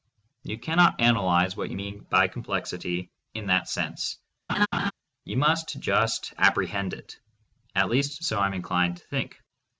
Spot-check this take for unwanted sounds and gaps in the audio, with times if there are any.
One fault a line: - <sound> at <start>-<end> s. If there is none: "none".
- laugh at 4.5-4.9 s